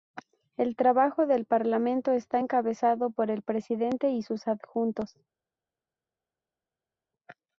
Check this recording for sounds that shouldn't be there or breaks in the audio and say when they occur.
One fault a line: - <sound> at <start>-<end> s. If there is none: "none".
none